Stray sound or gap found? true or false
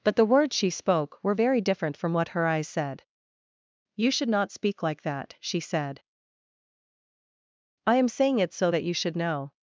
false